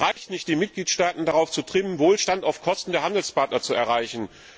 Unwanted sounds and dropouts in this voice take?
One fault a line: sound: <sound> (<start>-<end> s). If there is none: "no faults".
sound: dropout (0.1-0.2 s)